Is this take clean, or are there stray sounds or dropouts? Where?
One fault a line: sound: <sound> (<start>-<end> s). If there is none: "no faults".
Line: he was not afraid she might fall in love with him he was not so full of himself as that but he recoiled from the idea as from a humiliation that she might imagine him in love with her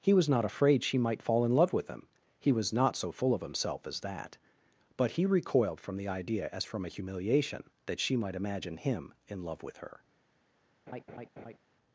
sound: laugh (10.9-11.6 s)